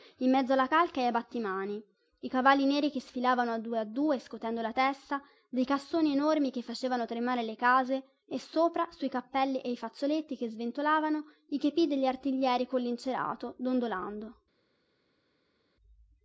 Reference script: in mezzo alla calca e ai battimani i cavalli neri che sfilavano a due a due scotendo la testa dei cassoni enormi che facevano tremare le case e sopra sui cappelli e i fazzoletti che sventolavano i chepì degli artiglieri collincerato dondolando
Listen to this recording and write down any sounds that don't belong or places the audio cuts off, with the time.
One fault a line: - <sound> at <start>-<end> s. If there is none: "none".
none